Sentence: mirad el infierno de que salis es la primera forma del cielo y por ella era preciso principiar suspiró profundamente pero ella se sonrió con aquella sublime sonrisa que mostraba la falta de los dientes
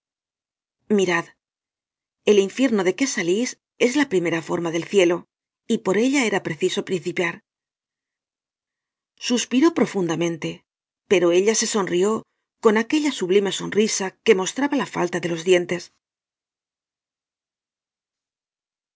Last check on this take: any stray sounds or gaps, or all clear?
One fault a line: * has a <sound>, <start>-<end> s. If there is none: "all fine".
all fine